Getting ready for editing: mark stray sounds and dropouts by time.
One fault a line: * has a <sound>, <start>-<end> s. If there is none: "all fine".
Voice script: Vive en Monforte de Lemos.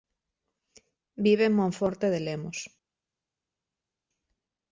all fine